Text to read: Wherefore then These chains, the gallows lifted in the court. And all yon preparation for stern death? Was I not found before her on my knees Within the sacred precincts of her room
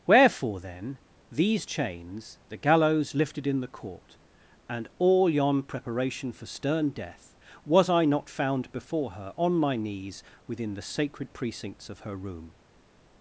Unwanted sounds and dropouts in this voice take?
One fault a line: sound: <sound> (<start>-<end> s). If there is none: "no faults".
no faults